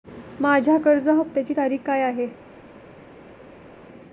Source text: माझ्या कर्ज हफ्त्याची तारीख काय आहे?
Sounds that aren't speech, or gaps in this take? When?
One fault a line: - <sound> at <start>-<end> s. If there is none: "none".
none